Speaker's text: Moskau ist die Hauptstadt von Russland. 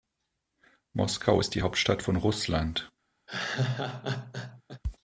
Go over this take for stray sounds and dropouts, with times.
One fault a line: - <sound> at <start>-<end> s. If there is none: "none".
- laugh at 3.3-4.8 s